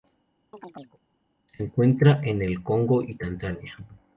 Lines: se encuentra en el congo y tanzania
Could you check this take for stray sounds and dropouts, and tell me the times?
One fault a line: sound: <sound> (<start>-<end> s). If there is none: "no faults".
sound: chirp (0.5-1.0 s)